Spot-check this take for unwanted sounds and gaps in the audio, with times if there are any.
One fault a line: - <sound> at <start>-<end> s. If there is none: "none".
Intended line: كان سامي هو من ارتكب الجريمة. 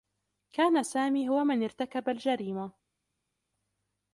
none